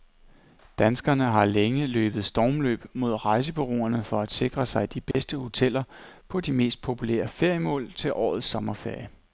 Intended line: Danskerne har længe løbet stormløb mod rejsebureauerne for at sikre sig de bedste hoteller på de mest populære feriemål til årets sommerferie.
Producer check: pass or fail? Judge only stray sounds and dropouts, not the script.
fail